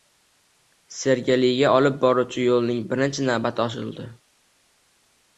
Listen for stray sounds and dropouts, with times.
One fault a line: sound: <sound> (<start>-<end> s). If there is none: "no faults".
no faults